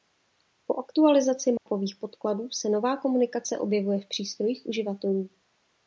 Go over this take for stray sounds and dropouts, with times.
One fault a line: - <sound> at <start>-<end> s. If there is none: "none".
- dropout at 1.6-1.7 s